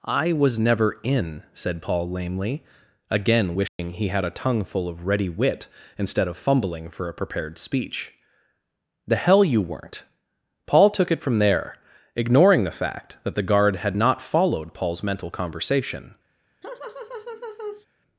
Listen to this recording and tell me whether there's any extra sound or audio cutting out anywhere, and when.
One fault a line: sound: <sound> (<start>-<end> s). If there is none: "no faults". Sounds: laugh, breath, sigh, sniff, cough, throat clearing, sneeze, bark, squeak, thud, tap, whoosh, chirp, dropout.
sound: dropout (3.7-3.8 s)
sound: laugh (16.6-17.9 s)